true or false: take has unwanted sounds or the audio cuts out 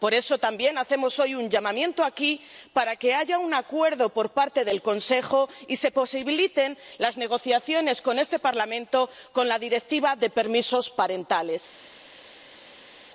false